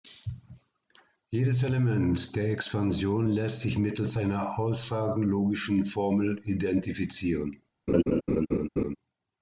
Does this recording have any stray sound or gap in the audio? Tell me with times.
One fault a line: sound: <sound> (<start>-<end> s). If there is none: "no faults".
sound: laugh (7.9-9.0 s)